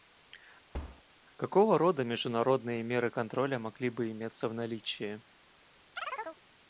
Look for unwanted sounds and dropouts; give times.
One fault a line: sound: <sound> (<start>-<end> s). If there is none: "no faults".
sound: thud (0.7-1.0 s)
sound: chirp (6.0-6.4 s)